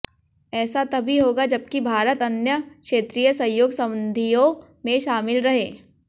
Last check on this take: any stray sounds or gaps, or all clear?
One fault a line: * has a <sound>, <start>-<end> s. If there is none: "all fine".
all fine